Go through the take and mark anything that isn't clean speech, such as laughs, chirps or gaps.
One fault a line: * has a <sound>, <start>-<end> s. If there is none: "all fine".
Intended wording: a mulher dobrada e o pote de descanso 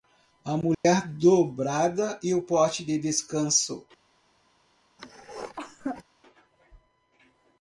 * has a dropout, 0.7-0.8 s
* has a cough, 5.0-6.0 s